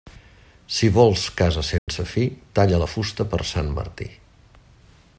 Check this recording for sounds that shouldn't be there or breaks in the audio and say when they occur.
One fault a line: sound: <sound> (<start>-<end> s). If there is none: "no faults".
sound: dropout (1.8-1.9 s)